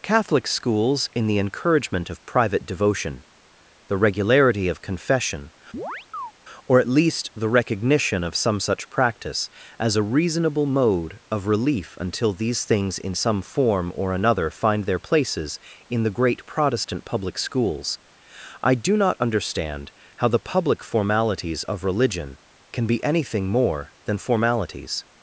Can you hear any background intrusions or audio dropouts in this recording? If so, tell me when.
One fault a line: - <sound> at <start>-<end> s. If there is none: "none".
- chirp at 5.7-6.3 s